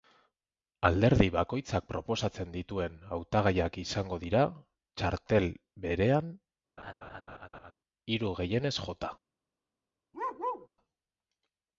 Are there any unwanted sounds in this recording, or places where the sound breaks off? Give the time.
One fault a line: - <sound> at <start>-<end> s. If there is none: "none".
- laugh at 6.8-7.7 s
- bark at 10.1-10.7 s